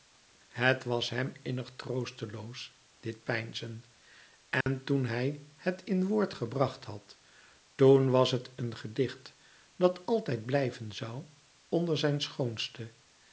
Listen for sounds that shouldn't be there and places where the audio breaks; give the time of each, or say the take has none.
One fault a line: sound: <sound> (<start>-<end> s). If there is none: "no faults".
sound: dropout (4.6-4.7 s)